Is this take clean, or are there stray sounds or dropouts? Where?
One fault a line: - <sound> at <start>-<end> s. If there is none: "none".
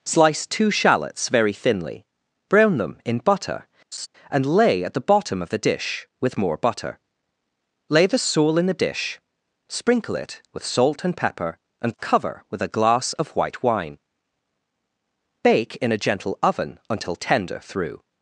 - laugh at 3.9-4.1 s